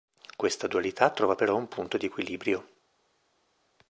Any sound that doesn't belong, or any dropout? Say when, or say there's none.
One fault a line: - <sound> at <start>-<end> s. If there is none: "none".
none